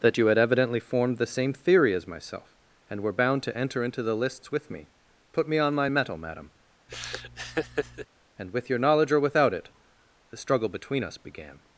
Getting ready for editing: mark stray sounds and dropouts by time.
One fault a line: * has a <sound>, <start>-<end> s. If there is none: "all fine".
* has a laugh, 6.9-8.1 s